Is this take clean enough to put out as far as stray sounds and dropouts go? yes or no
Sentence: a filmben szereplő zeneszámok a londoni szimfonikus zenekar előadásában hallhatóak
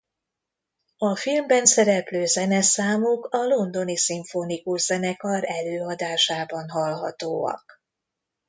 yes